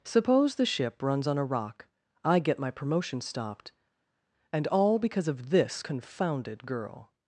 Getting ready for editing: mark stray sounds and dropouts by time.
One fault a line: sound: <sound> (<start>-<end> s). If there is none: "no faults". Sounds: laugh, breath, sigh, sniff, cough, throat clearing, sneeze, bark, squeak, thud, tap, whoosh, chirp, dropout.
no faults